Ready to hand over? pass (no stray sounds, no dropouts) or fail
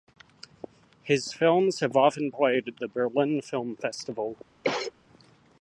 fail